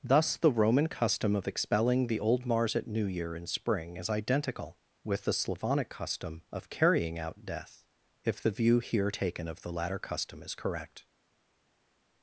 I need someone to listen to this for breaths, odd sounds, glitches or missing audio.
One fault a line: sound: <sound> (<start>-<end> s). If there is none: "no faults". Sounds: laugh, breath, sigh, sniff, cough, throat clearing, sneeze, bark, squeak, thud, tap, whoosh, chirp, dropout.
no faults